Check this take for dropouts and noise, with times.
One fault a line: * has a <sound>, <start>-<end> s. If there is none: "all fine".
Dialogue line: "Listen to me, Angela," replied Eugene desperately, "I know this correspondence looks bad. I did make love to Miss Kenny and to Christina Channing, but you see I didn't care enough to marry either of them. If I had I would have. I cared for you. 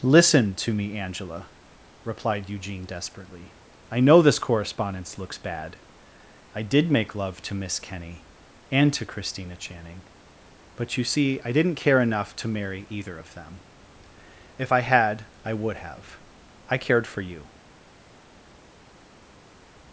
all fine